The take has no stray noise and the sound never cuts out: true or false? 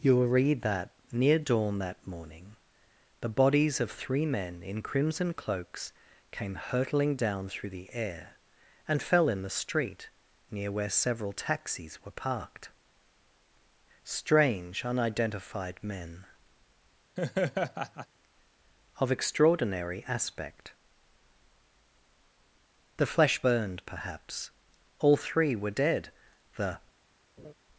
false